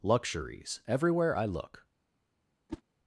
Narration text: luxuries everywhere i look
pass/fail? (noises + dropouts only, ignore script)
fail